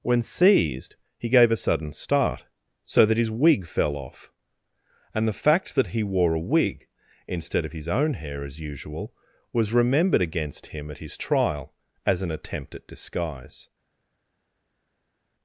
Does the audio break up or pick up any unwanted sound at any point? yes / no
no